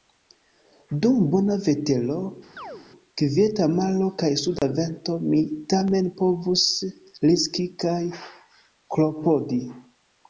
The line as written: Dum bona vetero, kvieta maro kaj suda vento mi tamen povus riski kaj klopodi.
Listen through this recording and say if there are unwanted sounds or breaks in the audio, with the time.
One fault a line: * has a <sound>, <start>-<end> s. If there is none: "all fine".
* has a chirp, 2.6-2.9 s
* has a dropout, 4.6-4.6 s